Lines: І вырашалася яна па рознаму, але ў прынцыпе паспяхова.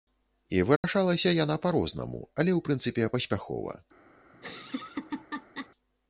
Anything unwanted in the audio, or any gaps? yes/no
yes